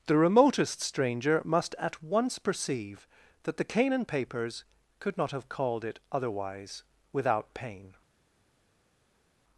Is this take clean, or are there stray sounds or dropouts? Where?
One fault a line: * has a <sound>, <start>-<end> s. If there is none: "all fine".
all fine